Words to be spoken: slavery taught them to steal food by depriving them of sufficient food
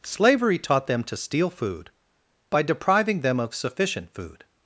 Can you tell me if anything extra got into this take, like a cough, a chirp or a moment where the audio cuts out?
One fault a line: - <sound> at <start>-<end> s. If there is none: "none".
none